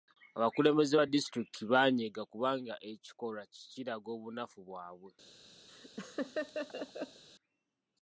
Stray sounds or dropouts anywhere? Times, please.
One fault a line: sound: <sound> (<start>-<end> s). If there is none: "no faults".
sound: laugh (5.7-7.2 s)